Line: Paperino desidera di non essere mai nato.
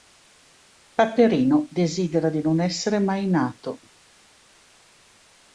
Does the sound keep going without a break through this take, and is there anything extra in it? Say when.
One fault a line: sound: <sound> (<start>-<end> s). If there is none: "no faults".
no faults